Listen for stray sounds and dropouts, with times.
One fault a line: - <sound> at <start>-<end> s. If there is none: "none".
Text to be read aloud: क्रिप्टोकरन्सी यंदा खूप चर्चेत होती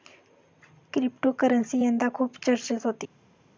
none